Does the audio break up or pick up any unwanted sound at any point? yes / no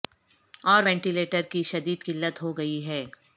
no